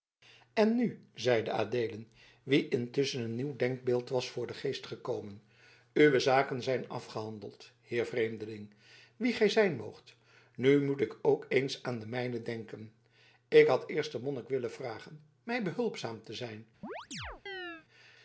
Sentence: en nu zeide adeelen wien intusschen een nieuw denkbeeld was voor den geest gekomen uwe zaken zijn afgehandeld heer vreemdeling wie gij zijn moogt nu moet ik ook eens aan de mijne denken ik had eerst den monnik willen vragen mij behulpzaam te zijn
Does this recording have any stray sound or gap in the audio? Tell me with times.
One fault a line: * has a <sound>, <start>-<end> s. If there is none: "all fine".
* has a chirp, 16.8-17.9 s